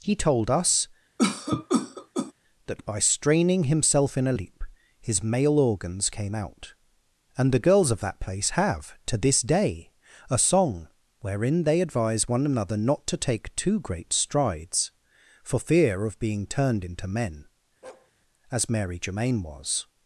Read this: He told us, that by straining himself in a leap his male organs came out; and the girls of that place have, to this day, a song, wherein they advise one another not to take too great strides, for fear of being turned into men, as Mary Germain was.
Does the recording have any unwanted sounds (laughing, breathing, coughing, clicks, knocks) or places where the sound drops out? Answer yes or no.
yes